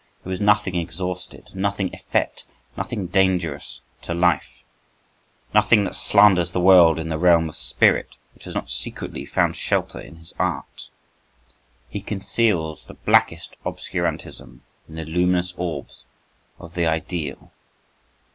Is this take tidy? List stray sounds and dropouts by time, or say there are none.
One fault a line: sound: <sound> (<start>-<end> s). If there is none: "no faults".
no faults